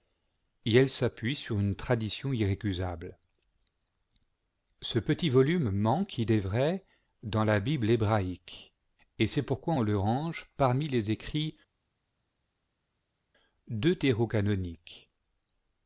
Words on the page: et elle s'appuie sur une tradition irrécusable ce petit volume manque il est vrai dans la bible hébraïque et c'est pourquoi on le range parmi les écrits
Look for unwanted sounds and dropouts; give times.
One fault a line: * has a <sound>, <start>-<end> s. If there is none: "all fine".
all fine